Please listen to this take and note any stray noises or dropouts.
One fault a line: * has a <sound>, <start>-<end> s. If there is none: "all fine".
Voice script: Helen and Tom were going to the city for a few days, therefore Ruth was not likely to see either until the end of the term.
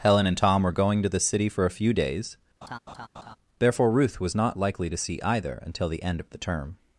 * has a laugh, 2.6-3.4 s